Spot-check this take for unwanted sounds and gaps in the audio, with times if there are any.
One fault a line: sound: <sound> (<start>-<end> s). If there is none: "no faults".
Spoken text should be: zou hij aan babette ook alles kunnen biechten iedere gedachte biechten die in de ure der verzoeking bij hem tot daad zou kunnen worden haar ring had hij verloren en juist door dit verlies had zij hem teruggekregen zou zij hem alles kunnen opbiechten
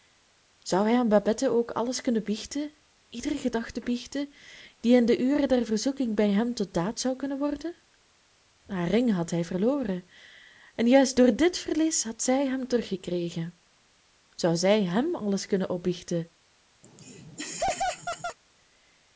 sound: laugh (16.8-18.4 s)